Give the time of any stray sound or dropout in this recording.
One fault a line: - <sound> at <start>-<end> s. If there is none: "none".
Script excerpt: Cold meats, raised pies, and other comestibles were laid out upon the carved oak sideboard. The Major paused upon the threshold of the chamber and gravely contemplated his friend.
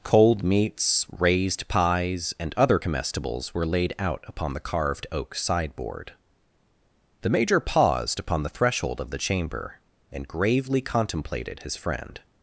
none